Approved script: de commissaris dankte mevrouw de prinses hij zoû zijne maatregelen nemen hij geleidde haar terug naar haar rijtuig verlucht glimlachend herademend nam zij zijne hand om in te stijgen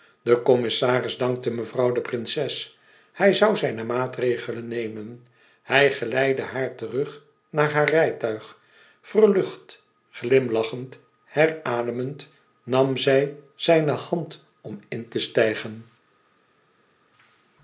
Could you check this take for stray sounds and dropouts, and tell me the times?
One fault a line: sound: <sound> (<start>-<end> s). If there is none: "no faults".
no faults